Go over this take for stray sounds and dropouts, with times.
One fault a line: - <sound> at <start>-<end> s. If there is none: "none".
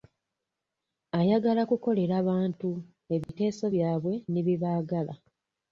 - dropout at 3.2-3.3 s